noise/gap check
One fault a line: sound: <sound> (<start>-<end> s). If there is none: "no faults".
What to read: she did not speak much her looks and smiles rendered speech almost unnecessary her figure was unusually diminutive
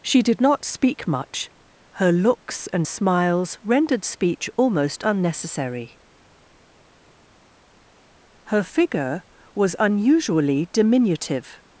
no faults